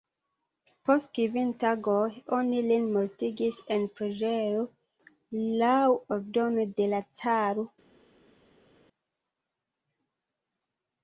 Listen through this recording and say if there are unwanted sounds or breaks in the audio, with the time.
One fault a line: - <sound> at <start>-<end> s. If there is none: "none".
none